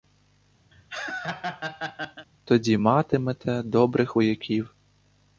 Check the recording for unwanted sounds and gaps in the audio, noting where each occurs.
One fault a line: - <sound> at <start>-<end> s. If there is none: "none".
- laugh at 0.7-2.3 s